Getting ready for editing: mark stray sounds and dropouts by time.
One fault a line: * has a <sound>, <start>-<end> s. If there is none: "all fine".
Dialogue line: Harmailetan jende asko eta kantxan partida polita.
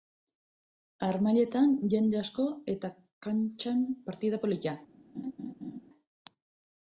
* has a laugh, 5.1-5.8 s